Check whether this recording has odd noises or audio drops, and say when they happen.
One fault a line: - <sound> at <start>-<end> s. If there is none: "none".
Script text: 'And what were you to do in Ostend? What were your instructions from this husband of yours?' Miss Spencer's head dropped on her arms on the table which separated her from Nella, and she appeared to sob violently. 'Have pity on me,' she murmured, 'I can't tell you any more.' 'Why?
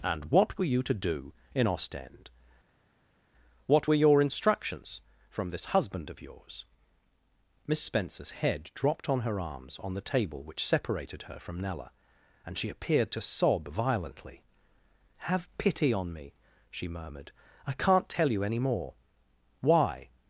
none